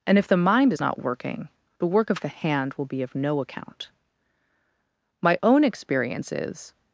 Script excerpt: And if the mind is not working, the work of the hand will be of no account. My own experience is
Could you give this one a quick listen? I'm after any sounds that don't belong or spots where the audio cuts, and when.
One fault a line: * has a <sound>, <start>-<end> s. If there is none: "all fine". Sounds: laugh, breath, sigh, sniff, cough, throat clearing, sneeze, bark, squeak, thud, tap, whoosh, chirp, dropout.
all fine